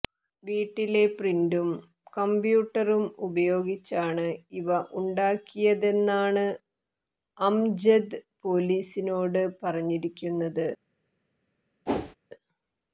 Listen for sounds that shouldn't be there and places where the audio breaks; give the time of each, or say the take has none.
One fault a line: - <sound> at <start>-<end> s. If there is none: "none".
- whoosh at 11.9-12.2 s